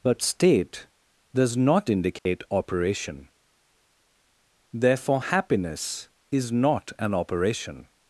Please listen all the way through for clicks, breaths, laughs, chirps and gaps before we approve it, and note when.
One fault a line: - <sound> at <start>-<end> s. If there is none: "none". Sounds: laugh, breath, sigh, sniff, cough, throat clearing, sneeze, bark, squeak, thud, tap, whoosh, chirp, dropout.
- dropout at 2.2-2.3 s